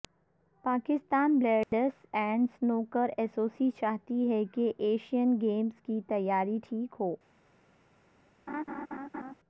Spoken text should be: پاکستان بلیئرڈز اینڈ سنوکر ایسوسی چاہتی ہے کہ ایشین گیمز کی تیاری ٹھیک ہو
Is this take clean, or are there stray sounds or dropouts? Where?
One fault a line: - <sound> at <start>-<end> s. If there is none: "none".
- dropout at 1.6-1.7 s
- laugh at 8.5-9.3 s